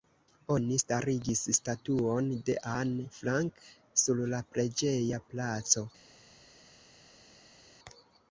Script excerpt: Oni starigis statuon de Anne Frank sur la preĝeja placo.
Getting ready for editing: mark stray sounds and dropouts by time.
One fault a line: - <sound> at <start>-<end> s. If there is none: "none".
none